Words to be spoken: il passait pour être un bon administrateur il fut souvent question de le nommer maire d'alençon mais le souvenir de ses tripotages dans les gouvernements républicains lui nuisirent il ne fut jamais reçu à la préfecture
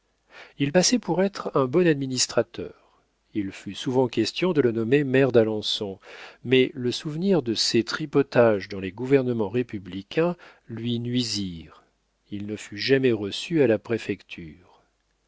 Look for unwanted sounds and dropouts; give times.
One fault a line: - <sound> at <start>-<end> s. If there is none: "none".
none